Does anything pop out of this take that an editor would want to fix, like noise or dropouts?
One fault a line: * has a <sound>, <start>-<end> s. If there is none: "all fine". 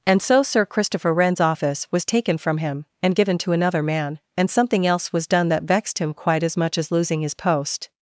all fine